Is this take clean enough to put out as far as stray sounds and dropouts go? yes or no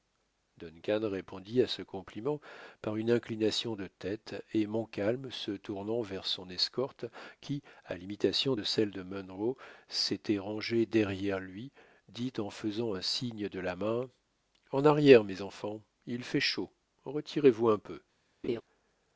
no